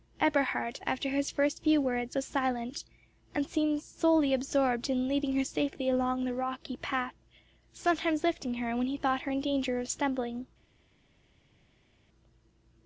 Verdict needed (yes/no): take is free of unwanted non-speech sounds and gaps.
yes